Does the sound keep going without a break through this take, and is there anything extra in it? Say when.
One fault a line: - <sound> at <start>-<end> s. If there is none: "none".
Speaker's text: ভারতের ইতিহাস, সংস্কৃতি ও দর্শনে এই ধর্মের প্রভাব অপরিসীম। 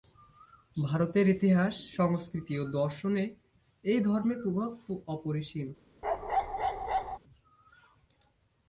- bark at 6.0-7.2 s